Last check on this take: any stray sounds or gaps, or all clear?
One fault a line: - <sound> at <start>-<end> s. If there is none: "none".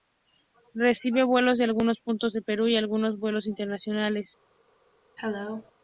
- cough at 5.2-5.7 s